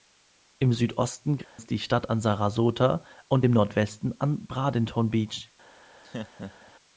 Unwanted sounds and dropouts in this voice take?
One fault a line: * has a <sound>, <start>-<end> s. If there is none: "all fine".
* has a dropout, 1.4-1.6 s
* has a laugh, 6.0-6.7 s